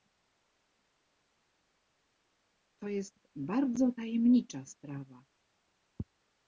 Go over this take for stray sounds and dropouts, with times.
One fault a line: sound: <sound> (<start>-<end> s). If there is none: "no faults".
no faults